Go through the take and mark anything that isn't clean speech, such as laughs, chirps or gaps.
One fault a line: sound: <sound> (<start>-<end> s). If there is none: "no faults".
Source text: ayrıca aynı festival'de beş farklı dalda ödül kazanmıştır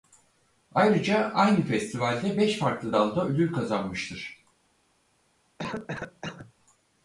sound: cough (5.6-6.5 s)